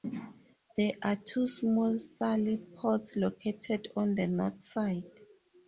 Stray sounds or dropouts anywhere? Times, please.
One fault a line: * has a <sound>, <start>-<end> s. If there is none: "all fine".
all fine